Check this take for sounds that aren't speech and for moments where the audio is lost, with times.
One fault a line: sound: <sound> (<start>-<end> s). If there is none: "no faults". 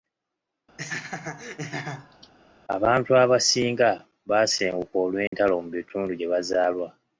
sound: laugh (0.8-2.3 s)
sound: dropout (5.3-5.3 s)